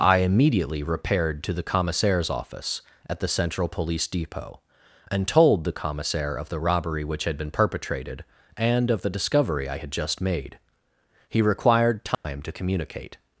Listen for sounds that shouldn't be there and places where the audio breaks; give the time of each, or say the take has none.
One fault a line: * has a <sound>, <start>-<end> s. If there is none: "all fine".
* has a dropout, 12.1-12.2 s